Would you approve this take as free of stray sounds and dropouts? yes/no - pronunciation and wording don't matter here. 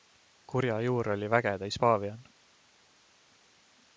yes